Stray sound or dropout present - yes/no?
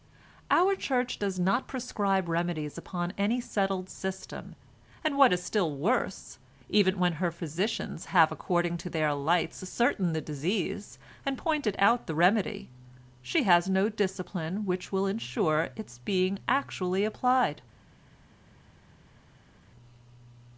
no